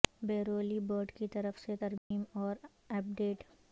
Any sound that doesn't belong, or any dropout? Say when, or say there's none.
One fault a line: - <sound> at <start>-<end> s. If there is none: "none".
- dropout at 2.0-2.1 s